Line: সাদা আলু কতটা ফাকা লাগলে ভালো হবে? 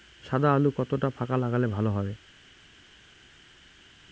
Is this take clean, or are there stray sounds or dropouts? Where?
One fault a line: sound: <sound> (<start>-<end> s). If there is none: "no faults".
no faults